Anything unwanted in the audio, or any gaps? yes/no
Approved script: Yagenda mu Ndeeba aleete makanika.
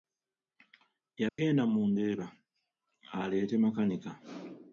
yes